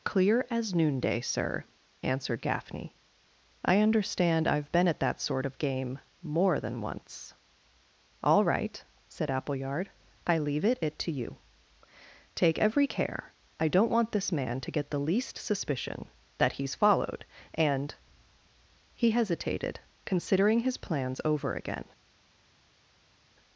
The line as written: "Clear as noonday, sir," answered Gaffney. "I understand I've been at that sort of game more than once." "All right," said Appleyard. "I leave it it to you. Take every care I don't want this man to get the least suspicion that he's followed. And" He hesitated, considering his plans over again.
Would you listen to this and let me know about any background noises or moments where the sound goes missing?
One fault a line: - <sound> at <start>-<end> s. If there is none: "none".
none